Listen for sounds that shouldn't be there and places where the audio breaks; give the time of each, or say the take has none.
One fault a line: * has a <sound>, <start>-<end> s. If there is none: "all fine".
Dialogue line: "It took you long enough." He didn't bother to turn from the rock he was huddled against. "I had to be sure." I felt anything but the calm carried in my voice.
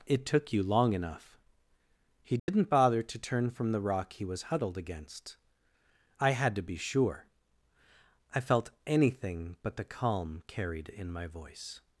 * has a dropout, 2.4-2.5 s